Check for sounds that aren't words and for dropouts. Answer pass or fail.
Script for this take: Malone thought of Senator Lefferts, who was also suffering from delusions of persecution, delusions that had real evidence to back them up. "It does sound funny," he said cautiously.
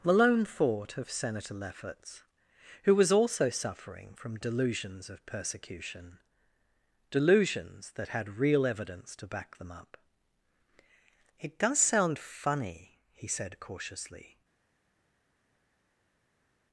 pass